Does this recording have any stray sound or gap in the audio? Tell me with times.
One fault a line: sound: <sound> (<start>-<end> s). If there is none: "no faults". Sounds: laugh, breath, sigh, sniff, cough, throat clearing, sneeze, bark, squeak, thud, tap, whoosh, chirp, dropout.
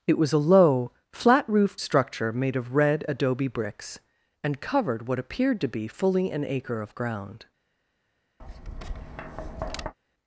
sound: tap (8.4-9.9 s)